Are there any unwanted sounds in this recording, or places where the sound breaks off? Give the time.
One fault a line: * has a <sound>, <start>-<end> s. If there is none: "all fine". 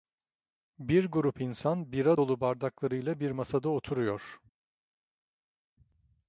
all fine